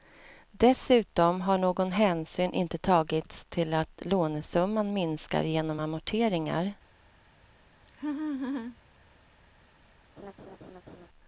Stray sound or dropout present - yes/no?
yes